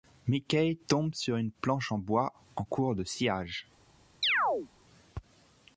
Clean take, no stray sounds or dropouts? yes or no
no